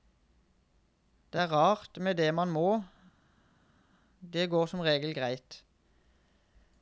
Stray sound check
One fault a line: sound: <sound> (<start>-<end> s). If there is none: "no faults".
no faults